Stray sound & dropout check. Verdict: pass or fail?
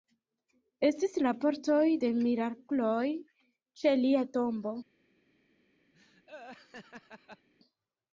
fail